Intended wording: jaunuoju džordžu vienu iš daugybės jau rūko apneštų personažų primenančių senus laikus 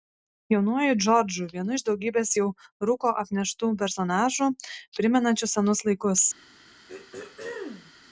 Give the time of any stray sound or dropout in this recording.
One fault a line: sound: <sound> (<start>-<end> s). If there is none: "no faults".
sound: throat clearing (6.9-7.9 s)